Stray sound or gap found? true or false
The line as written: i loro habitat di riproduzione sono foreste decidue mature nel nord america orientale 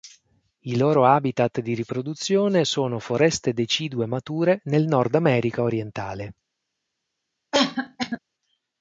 true